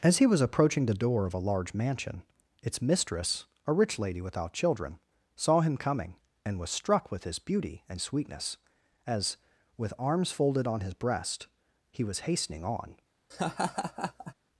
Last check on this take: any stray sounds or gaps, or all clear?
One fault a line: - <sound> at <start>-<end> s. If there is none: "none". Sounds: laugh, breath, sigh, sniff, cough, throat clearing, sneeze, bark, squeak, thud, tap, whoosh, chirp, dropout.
- laugh at 13.3-14.3 s